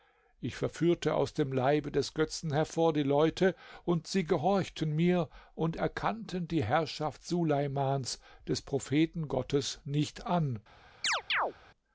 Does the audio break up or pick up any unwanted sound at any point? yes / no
yes